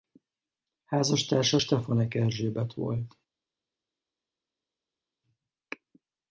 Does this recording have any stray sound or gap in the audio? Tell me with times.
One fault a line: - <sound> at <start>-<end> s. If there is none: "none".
none